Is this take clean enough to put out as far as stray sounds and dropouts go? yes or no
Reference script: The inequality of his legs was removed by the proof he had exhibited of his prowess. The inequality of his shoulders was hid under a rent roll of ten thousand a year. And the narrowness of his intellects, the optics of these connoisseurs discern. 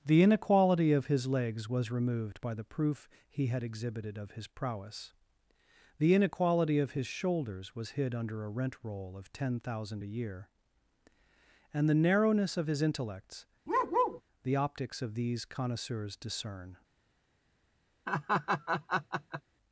no